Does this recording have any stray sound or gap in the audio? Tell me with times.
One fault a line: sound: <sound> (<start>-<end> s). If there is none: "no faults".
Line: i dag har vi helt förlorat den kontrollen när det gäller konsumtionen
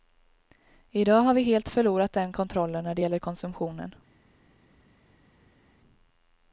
no faults